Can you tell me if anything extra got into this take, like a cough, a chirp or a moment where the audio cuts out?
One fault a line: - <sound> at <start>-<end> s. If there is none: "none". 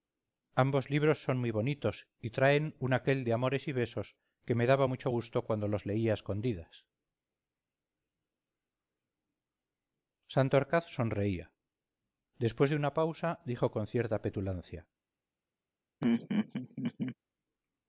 - laugh at 16.0-17.2 s